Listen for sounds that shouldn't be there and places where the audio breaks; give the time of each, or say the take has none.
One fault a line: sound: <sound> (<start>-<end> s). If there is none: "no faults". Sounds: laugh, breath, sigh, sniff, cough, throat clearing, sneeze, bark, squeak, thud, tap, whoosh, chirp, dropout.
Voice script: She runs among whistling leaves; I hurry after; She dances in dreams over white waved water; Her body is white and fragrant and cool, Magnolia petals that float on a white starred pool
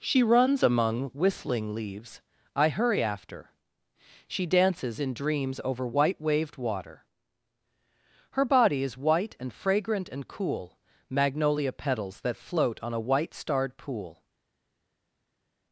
no faults